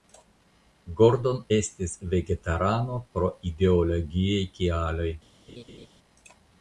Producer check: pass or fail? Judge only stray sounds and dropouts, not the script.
fail